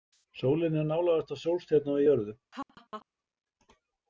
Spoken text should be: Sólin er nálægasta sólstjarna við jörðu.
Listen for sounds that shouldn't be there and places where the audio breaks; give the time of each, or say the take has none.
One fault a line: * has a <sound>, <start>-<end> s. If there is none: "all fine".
* has a laugh, 2.5-3.1 s